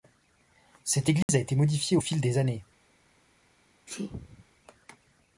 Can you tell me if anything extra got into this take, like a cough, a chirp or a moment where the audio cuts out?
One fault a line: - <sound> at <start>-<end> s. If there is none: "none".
- dropout at 1.2-1.3 s
- sneeze at 3.9-4.5 s